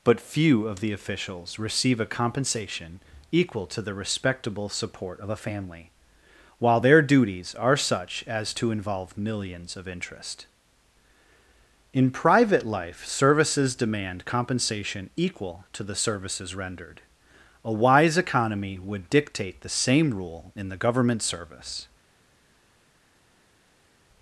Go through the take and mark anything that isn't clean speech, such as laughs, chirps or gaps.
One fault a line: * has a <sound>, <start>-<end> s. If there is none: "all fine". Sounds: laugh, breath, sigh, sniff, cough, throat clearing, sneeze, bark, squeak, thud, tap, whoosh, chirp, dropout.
all fine